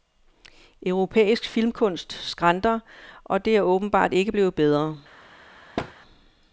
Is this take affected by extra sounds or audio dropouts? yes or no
yes